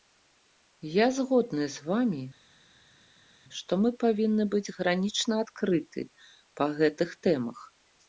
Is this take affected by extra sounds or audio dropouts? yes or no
no